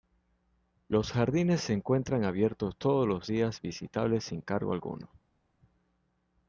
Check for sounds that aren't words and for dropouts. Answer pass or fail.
pass